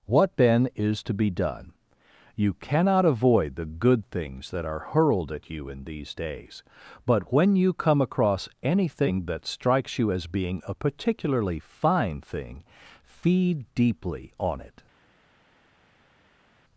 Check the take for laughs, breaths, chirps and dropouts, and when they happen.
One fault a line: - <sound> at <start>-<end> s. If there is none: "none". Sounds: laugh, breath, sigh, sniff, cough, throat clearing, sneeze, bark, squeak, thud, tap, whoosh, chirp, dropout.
none